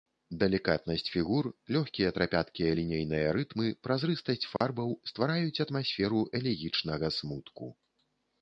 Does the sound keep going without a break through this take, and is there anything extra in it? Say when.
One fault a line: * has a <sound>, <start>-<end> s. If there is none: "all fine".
* has a dropout, 4.6-4.6 s